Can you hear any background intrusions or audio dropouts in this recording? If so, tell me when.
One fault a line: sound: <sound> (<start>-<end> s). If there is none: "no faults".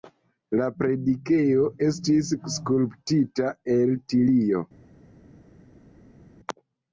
no faults